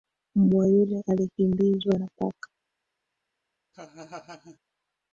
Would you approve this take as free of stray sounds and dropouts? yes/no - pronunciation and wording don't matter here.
no